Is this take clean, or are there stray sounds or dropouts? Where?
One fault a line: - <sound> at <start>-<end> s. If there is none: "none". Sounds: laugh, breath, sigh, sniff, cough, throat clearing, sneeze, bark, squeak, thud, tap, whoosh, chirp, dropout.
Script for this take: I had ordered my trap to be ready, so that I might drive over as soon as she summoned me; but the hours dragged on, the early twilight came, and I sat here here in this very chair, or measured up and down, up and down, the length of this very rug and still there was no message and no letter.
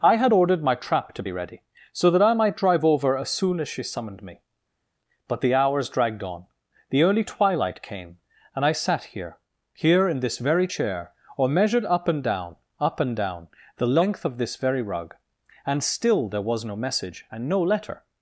none